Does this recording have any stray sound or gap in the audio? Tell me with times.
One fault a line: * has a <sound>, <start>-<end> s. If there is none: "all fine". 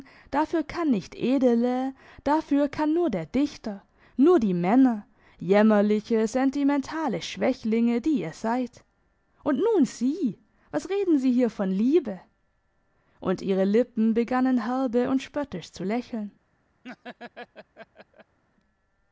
* has a laugh, 16.8-18.4 s